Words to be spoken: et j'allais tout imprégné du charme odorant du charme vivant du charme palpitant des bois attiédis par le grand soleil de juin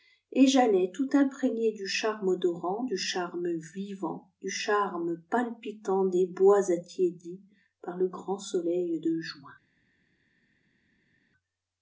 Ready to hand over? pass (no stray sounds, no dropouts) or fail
pass